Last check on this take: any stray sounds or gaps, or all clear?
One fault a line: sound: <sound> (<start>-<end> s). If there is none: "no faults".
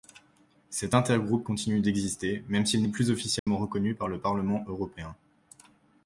sound: dropout (3.4-3.5 s)